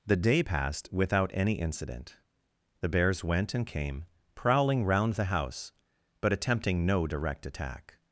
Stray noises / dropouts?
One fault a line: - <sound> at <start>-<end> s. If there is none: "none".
none